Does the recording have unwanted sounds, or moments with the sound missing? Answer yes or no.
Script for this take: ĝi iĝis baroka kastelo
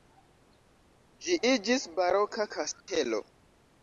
yes